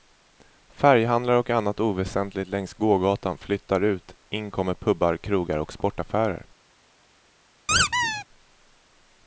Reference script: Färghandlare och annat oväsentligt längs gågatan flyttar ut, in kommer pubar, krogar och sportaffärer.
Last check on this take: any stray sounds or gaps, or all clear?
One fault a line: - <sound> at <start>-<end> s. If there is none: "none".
- squeak at 7.7-8.2 s